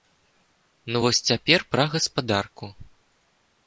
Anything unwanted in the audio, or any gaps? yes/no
no